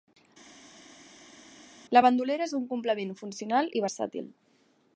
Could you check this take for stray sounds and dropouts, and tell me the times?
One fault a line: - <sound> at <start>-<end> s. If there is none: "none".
none